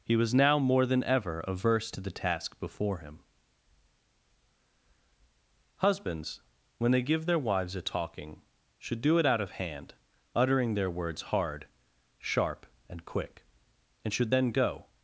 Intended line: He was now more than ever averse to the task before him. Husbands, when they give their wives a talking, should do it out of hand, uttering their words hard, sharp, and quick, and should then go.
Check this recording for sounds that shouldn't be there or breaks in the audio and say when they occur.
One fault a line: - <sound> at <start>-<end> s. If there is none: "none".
none